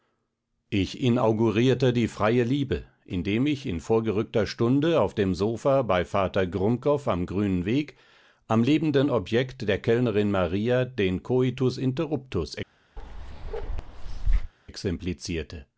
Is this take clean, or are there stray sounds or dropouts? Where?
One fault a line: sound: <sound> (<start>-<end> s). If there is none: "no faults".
sound: bark (13.0-14.5 s)